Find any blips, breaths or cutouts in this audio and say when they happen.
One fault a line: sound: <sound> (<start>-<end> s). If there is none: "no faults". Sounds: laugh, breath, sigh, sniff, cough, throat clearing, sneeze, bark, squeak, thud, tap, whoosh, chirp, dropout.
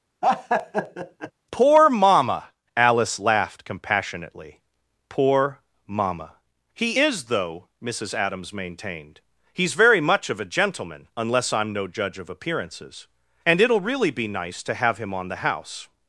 sound: laugh (0.2-1.3 s)